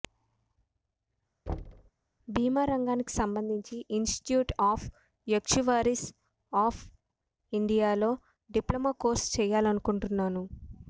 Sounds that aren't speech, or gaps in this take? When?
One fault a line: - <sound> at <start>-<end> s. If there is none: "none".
- thud at 1.5-1.9 s